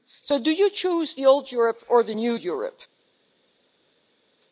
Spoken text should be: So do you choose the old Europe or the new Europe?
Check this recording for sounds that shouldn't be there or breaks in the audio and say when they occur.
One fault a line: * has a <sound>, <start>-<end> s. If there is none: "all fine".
all fine